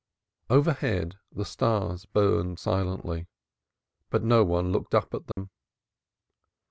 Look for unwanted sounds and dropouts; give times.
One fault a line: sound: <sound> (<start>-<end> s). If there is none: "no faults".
sound: dropout (5.3-5.4 s)